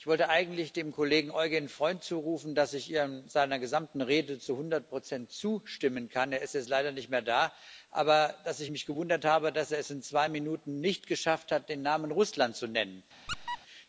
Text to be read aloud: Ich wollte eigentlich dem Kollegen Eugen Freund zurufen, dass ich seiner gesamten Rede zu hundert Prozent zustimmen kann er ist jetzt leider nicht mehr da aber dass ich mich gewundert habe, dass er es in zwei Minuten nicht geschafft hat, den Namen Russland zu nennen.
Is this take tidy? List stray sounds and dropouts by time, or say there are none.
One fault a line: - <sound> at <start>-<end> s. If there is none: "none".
- squeak at 13.3-13.6 s